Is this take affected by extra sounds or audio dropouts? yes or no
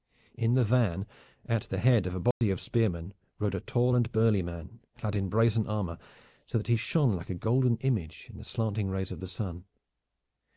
yes